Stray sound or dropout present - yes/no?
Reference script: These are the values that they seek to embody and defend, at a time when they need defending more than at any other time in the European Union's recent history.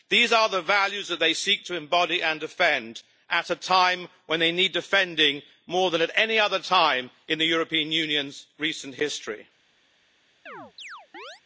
yes